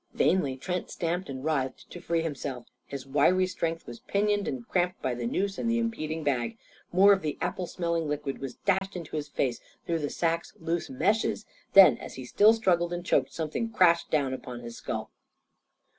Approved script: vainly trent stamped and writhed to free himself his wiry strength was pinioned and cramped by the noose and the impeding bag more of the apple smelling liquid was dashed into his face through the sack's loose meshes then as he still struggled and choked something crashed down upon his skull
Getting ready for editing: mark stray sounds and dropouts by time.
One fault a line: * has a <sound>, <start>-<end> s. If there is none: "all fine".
* has a dropout, 8.8-8.8 s